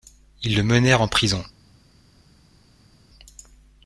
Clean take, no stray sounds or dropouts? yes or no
yes